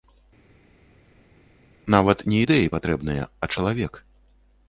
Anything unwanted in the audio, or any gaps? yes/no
no